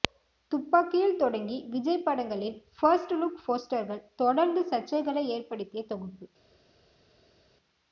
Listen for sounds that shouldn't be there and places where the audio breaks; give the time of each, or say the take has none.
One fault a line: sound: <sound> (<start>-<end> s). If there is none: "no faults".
no faults